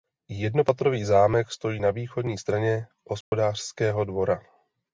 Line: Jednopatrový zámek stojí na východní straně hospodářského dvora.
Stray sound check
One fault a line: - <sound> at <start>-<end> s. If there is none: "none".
- dropout at 3.2-3.3 s